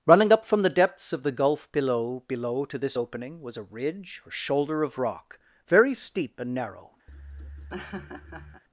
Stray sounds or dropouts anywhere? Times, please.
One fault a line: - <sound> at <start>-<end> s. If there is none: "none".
- laugh at 7.1-8.6 s